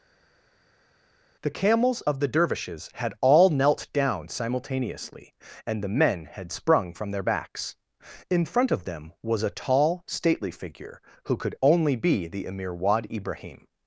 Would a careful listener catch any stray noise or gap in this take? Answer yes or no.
no